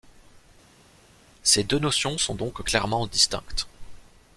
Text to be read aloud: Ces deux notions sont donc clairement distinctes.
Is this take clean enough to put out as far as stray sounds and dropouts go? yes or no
yes